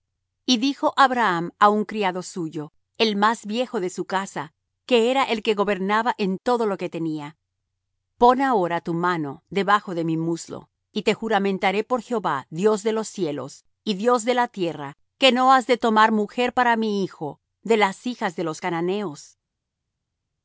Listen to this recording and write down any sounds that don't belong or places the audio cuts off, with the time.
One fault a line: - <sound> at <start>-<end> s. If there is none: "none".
none